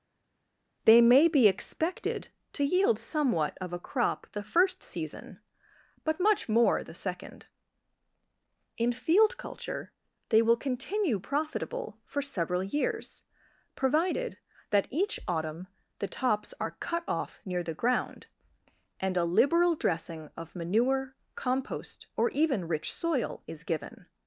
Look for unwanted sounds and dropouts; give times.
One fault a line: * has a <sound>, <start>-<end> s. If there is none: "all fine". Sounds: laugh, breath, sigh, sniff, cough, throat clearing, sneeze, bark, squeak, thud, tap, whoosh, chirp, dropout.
all fine